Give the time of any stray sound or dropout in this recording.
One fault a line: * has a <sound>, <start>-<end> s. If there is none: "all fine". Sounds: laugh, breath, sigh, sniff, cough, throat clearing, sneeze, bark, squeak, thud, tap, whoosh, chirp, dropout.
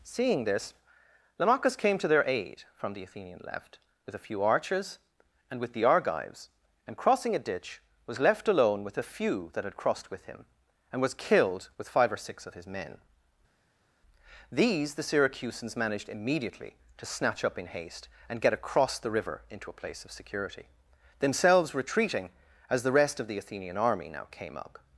all fine